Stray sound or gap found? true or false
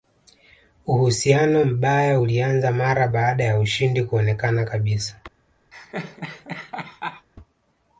true